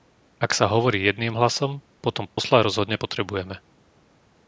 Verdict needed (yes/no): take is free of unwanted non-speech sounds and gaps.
no